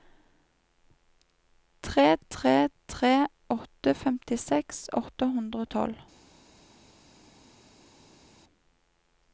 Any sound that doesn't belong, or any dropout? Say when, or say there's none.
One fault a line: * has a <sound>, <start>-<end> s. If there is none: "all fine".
all fine